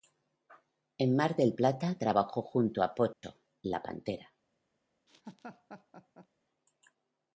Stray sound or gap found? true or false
true